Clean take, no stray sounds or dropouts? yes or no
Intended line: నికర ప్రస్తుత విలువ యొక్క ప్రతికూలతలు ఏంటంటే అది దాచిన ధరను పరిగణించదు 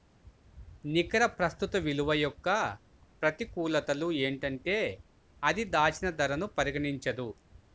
yes